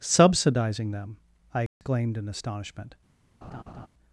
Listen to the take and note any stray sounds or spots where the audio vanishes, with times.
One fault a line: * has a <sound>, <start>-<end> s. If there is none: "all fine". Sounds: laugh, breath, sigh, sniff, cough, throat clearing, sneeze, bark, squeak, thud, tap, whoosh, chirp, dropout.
* has a dropout, 1.7-1.8 s
* has a laugh, 3.4-3.9 s